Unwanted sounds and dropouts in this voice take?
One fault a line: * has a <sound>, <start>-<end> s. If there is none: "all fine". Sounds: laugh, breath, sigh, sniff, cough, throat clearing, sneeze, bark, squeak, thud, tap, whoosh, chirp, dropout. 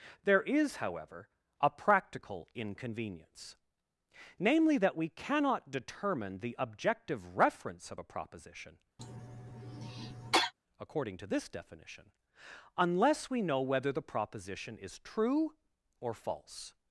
* has a cough, 9.0-10.5 s